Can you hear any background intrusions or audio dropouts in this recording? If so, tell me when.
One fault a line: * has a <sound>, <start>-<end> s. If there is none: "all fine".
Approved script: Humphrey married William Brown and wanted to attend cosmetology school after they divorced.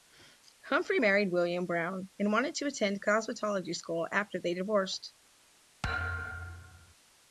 * has a thud, 5.8-6.9 s